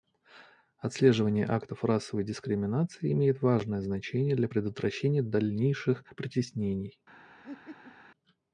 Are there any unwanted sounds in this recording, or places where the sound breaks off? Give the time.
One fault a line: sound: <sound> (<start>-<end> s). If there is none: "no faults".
sound: laugh (7.4-8.0 s)